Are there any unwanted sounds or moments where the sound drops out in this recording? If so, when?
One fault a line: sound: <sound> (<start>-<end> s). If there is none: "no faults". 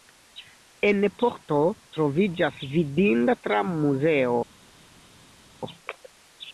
no faults